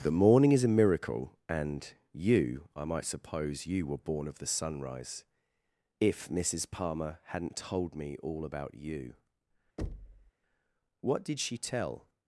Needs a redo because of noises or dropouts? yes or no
yes